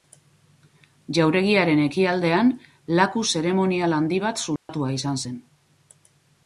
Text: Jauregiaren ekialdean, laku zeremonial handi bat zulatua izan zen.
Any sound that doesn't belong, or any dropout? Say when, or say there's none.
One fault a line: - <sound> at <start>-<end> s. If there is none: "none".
- dropout at 4.6-4.7 s